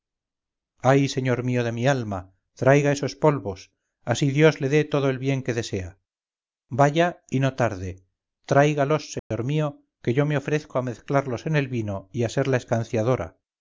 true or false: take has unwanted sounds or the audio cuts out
true